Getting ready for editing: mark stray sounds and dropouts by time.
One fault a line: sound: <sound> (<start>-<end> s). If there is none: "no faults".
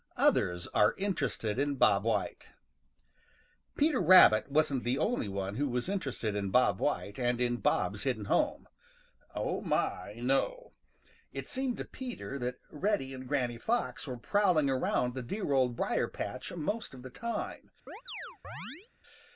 sound: chirp (17.9-18.9 s)